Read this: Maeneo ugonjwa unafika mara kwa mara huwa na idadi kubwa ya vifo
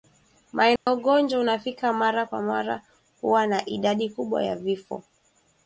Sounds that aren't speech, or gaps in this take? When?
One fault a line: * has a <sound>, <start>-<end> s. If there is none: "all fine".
* has a dropout, 0.8-0.9 s